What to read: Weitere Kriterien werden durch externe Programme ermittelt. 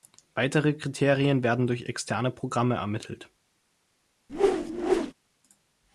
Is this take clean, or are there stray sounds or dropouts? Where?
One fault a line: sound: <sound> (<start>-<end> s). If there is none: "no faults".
sound: whoosh (4.3-5.1 s)